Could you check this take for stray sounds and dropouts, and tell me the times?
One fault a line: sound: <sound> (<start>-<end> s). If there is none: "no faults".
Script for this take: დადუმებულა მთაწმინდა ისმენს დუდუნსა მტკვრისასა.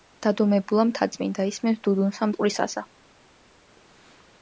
no faults